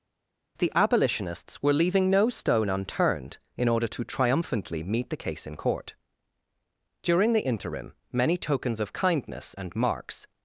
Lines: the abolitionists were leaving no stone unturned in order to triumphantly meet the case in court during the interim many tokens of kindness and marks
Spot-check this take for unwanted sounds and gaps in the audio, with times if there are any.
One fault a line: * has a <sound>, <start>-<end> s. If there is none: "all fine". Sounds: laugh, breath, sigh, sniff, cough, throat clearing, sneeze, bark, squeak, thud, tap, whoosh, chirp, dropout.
all fine